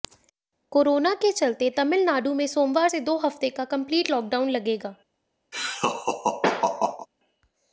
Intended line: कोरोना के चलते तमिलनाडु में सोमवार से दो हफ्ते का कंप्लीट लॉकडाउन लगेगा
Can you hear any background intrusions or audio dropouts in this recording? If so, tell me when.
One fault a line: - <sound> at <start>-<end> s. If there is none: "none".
- laugh at 5.5-7.1 s